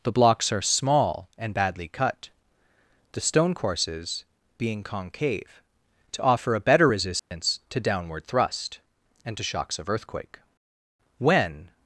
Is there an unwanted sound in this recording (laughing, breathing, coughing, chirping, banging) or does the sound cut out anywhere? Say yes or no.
yes